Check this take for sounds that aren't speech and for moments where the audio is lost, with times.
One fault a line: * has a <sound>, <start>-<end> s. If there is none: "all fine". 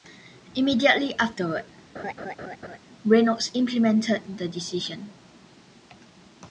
* has a laugh, 1.9-2.8 s